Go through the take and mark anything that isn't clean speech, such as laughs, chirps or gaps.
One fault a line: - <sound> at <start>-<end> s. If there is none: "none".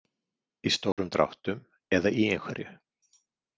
- dropout at 0.9-1.0 s